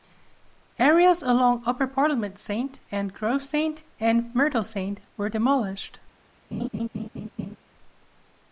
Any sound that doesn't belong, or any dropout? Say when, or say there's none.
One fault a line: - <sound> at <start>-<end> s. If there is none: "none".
- laugh at 6.5-7.6 s